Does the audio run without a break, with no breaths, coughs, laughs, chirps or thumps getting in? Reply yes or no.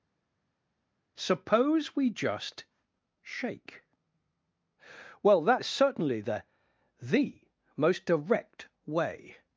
yes